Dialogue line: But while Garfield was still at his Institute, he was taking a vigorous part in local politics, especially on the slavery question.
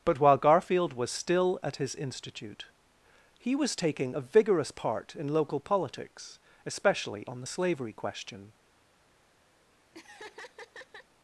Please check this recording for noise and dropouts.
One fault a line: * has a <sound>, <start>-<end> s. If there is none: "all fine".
* has a laugh, 9.9-11.1 s